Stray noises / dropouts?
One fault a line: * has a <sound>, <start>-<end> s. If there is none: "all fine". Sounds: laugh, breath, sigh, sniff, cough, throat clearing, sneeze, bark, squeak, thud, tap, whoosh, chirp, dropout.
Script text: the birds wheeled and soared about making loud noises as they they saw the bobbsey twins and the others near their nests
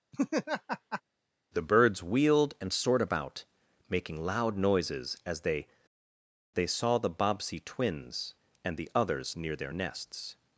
* has a laugh, 0.1-1.0 s